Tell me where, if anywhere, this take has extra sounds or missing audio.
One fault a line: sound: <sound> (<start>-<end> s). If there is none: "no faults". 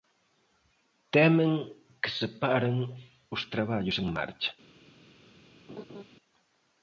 sound: laugh (5.7-6.0 s)